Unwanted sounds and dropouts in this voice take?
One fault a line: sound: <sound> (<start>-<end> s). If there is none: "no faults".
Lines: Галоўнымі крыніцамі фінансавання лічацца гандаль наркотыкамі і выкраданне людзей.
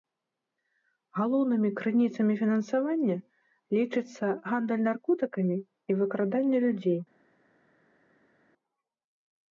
no faults